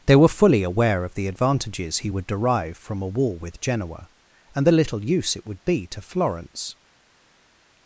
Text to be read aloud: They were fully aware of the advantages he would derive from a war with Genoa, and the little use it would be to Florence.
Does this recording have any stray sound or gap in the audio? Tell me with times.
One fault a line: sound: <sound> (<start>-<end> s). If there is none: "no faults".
no faults